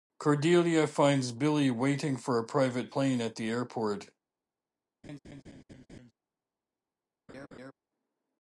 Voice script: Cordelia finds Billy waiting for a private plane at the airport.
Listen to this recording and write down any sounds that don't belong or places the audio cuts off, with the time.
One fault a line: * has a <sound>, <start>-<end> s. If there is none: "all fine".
* has a laugh, 5.0-6.1 s
* has a laugh, 7.3-7.7 s